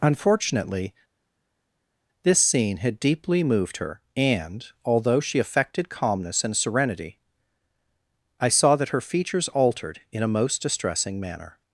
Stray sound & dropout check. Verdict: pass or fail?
pass